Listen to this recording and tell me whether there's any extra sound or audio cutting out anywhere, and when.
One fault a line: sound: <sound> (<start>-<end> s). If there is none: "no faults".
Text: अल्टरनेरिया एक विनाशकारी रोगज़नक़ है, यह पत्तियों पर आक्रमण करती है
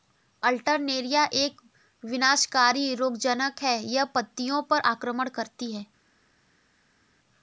no faults